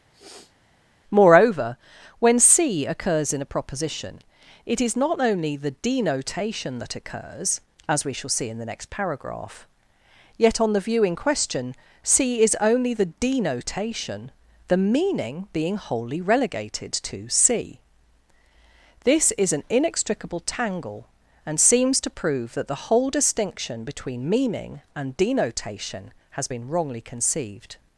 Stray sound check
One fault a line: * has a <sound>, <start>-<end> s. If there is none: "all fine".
* has a sniff, 0.1-0.6 s